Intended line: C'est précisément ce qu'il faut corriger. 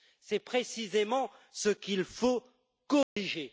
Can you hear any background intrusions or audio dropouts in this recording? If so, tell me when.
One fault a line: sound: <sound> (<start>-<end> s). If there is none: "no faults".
sound: dropout (3.0-3.2 s)